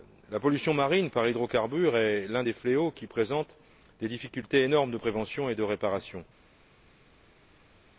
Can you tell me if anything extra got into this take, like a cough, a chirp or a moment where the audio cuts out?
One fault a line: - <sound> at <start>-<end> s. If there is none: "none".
none